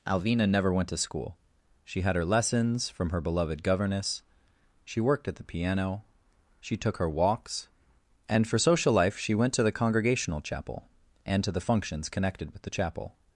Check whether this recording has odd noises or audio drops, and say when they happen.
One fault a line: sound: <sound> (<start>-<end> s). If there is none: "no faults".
no faults